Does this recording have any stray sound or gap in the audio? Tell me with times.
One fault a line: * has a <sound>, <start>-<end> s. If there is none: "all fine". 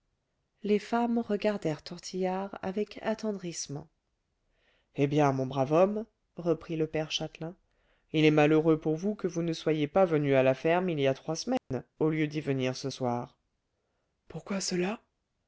* has a dropout, 11.6-11.7 s